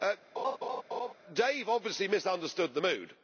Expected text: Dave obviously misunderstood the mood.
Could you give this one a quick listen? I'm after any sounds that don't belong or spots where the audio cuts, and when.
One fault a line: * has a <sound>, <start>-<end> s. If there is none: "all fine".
* has a laugh, 0.3-1.1 s